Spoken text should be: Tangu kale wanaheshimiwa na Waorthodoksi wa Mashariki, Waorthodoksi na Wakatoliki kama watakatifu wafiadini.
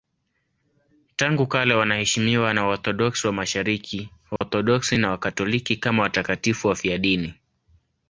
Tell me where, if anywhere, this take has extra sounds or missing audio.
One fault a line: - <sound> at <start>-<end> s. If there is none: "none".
- dropout at 4.4-4.4 s